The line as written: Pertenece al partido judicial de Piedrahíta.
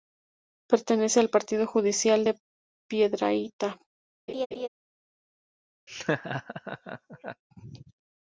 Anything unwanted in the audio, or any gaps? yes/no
yes